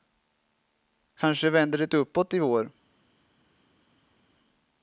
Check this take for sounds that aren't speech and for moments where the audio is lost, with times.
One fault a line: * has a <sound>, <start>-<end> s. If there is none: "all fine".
all fine